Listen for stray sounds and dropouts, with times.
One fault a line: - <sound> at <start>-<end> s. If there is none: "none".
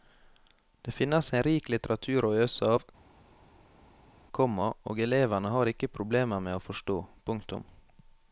none